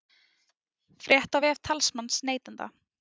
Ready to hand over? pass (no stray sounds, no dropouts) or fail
pass